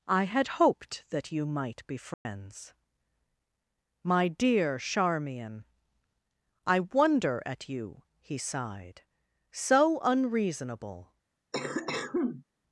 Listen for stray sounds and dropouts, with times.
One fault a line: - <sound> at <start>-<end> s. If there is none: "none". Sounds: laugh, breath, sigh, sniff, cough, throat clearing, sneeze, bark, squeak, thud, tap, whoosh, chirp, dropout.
- dropout at 2.1-2.3 s
- cough at 11.5-12.4 s